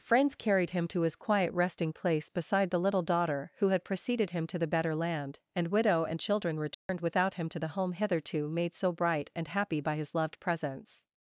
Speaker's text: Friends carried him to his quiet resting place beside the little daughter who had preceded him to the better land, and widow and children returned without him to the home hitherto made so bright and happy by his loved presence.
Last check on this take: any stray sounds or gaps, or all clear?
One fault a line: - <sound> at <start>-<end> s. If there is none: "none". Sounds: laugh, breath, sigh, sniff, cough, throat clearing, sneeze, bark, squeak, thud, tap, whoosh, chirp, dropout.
- dropout at 6.7-6.9 s